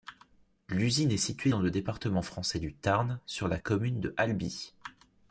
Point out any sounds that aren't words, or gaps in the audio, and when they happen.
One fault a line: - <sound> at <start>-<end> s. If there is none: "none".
none